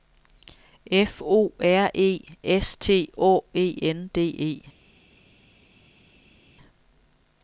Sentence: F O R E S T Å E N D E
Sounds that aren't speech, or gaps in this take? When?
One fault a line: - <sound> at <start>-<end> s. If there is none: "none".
none